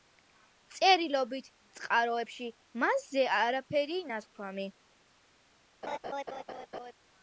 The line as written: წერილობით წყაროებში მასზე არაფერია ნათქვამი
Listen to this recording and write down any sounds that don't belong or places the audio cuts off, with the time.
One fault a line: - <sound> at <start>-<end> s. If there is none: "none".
- laugh at 5.8-6.9 s